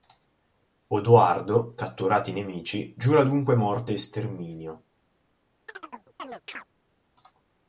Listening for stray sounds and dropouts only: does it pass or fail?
fail